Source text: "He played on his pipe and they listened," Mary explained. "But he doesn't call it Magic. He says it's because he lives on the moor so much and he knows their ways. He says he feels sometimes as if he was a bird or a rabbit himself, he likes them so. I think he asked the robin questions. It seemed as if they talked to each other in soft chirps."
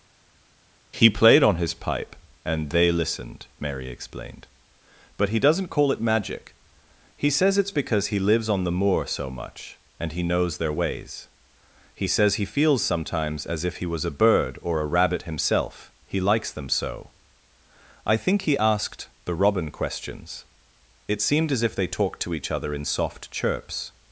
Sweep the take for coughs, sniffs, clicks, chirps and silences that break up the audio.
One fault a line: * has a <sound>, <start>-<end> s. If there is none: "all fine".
all fine